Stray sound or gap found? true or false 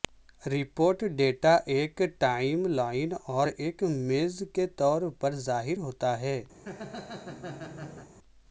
true